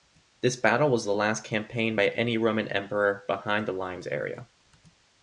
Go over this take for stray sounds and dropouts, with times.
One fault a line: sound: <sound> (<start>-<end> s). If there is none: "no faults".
no faults